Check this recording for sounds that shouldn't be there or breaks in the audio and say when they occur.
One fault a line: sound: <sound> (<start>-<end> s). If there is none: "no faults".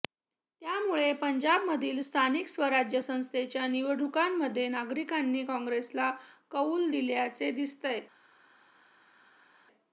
no faults